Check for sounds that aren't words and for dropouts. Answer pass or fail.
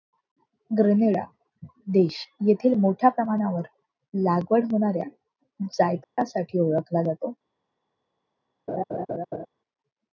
fail